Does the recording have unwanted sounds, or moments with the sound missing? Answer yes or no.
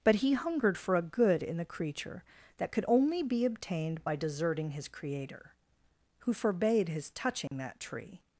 yes